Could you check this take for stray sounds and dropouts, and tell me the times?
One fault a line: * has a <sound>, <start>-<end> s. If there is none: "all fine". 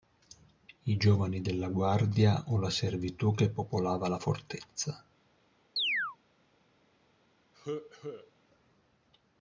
* has a chirp, 5.8-6.2 s
* has a cough, 7.5-8.3 s